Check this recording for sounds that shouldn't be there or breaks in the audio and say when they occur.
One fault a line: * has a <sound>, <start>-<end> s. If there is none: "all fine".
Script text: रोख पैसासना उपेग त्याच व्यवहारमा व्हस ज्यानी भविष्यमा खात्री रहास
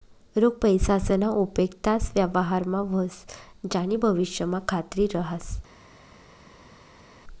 all fine